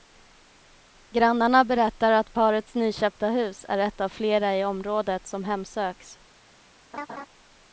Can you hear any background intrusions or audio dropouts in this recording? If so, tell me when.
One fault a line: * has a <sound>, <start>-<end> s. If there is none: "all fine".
* has a laugh, 6.9-7.3 s